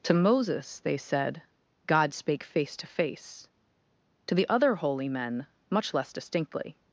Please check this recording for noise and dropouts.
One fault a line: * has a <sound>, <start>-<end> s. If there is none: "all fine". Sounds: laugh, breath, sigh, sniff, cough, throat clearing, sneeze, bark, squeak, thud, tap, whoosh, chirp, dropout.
all fine